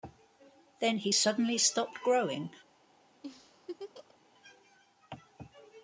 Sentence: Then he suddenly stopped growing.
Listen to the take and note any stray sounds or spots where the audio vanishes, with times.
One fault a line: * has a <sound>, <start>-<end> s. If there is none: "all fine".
* has a laugh, 3.2-4.2 s